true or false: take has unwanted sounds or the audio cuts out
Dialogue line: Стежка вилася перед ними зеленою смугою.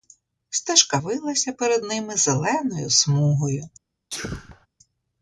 true